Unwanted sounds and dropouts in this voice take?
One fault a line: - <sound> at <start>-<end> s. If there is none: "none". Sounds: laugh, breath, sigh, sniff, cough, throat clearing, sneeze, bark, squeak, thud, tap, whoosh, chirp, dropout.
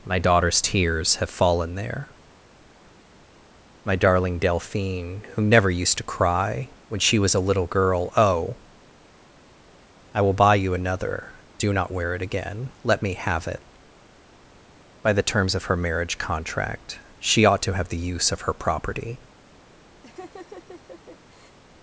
- laugh at 20.0-21.6 s